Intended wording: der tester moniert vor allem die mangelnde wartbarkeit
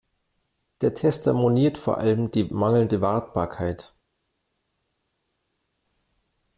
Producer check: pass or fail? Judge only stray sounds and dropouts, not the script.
pass